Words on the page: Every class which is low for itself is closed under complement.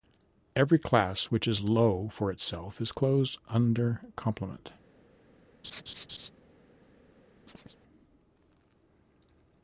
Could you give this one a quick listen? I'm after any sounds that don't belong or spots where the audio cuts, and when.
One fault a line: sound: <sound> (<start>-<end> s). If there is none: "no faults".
sound: laugh (5.6-6.3 s)
sound: chirp (7.5-7.8 s)